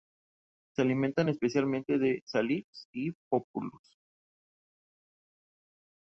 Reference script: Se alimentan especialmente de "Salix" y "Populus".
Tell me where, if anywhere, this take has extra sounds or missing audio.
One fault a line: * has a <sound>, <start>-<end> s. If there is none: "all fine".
all fine